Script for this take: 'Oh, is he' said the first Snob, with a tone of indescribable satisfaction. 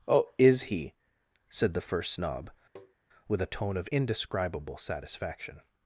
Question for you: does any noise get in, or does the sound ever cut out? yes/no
yes